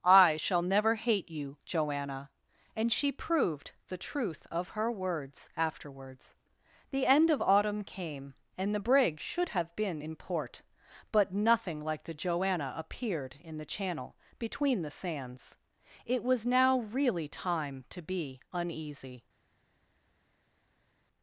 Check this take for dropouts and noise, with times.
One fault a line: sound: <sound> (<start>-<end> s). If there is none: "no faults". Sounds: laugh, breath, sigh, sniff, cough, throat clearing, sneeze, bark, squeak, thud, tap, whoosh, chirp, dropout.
no faults